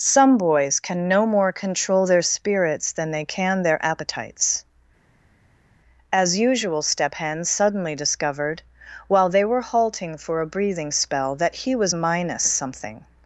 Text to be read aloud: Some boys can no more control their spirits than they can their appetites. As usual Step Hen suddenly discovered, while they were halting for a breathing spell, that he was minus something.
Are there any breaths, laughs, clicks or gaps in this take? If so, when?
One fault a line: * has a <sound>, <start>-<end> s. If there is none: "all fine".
all fine